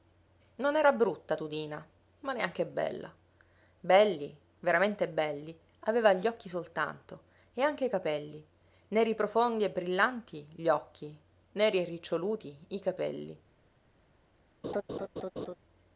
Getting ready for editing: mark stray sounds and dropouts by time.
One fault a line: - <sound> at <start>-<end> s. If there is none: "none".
- laugh at 14.6-15.6 s